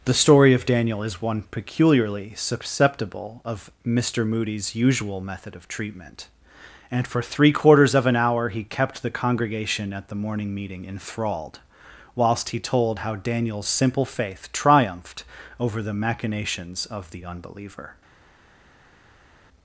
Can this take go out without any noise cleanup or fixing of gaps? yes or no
yes